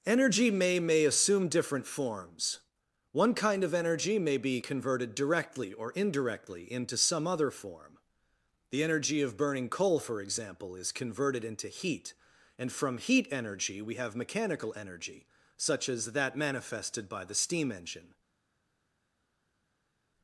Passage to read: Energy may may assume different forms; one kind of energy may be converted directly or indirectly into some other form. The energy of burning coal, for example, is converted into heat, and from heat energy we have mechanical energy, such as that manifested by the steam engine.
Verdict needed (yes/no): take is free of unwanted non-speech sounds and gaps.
yes